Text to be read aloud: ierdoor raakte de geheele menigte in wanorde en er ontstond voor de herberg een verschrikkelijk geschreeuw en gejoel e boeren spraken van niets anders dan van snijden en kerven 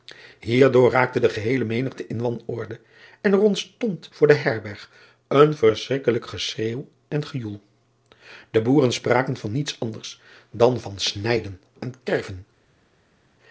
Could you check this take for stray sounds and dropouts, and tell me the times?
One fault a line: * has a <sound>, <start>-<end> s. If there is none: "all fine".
all fine